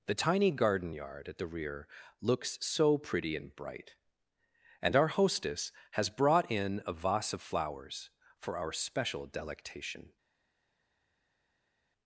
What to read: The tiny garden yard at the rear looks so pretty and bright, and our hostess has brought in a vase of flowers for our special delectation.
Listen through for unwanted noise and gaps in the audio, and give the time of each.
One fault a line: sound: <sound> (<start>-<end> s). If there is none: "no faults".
no faults